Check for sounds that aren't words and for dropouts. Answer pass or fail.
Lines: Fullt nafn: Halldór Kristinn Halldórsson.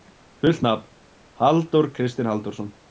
pass